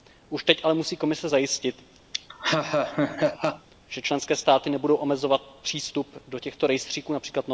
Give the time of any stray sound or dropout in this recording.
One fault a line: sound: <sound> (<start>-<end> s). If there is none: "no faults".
sound: laugh (2.1-3.7 s)